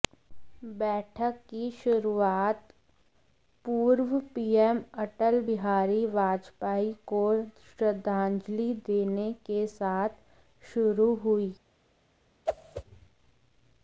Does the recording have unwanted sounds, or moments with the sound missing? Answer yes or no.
yes